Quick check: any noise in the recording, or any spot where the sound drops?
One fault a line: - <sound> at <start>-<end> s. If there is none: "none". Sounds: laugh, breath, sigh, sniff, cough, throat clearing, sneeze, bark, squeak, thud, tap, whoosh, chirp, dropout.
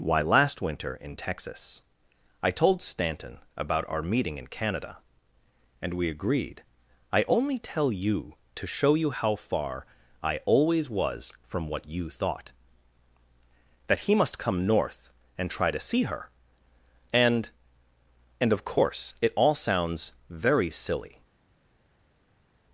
none